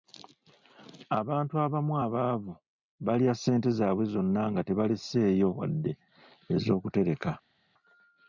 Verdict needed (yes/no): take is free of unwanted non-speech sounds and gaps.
yes